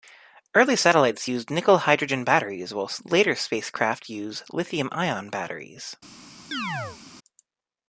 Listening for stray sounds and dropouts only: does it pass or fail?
fail